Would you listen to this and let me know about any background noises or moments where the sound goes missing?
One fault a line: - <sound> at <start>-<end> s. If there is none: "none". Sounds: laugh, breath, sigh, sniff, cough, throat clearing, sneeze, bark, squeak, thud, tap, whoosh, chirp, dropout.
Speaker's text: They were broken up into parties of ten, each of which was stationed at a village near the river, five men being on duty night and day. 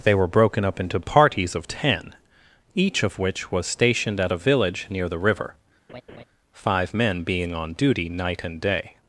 - laugh at 5.9-6.2 s